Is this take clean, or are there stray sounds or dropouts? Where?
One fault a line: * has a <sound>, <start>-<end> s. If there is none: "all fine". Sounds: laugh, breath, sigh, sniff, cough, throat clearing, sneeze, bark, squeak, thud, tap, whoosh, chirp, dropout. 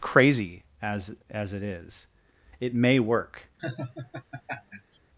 * has a laugh, 3.6-5.0 s